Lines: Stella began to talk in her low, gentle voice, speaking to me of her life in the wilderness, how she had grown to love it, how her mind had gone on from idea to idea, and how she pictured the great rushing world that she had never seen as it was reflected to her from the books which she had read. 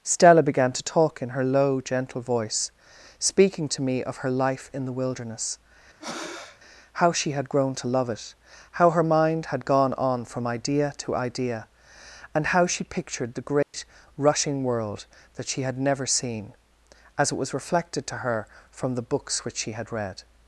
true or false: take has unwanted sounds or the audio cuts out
true